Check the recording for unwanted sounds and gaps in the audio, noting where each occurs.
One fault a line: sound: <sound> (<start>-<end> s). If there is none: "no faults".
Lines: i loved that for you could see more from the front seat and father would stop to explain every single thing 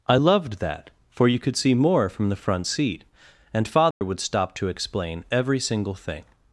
sound: dropout (3.9-4.0 s)